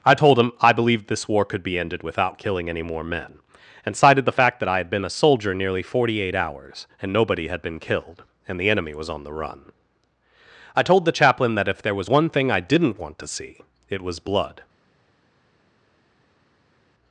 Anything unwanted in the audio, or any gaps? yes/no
no